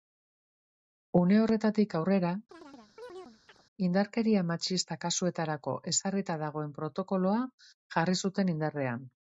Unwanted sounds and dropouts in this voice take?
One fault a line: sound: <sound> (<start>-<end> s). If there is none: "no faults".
sound: chirp (2.5-3.6 s)